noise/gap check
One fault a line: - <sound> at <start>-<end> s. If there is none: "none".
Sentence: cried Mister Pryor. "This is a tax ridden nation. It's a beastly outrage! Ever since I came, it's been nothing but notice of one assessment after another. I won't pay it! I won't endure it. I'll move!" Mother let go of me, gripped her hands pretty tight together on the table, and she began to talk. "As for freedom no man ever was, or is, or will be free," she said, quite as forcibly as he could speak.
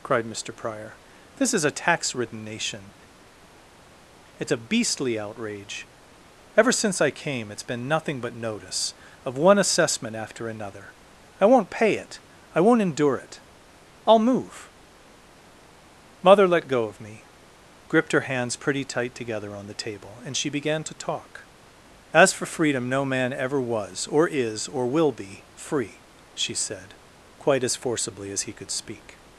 none